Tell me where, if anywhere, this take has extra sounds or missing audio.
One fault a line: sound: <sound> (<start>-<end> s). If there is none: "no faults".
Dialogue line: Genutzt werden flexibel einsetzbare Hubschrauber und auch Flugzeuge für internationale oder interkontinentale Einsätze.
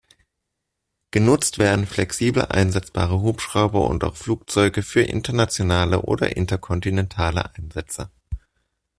no faults